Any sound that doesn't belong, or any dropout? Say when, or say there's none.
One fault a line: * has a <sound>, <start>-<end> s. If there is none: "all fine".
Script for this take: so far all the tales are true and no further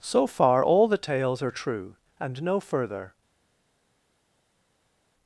all fine